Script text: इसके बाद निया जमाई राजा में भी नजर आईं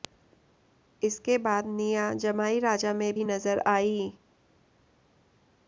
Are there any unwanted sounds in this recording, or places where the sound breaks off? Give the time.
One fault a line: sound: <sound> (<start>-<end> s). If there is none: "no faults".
no faults